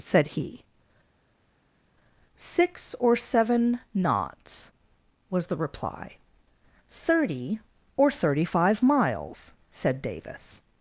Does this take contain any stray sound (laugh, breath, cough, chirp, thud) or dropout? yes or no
no